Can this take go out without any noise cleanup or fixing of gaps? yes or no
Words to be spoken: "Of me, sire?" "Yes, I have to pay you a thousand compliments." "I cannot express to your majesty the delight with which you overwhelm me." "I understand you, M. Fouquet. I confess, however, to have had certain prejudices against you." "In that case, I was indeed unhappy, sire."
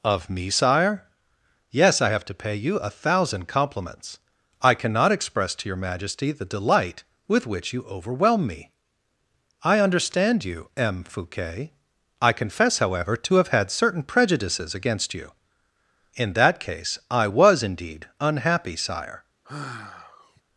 no